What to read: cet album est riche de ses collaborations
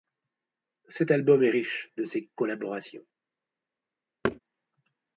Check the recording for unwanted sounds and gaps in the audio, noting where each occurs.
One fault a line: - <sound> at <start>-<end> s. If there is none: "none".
- thud at 4.2-4.4 s